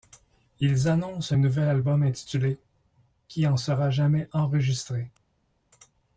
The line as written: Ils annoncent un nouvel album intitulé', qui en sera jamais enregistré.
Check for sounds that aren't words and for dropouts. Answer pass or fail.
pass